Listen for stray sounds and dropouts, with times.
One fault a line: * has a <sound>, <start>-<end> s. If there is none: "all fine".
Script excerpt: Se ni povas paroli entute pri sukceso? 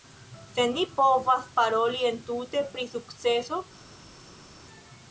all fine